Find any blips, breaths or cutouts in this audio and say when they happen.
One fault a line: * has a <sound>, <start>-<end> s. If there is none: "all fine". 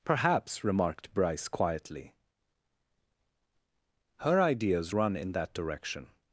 all fine